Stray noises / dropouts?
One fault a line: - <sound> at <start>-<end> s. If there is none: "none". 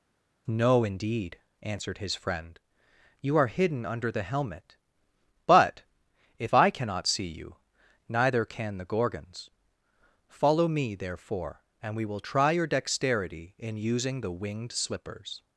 none